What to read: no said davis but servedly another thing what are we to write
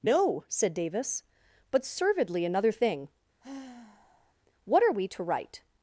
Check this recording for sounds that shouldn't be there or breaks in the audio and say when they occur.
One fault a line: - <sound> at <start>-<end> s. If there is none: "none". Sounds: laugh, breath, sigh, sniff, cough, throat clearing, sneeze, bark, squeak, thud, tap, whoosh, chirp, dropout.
- sigh at 3.4-4.3 s